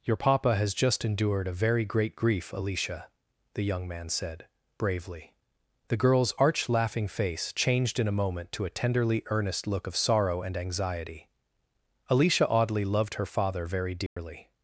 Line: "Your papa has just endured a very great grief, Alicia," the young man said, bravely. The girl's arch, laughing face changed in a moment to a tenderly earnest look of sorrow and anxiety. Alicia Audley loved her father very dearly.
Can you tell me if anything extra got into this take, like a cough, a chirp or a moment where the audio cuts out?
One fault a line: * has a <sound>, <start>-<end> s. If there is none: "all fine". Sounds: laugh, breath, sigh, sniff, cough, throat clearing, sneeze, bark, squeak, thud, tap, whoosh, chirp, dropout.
* has a dropout, 14.1-14.2 s